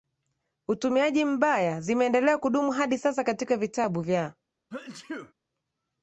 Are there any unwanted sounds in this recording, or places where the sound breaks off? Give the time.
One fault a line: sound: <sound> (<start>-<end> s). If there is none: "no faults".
sound: sneeze (4.7-5.3 s)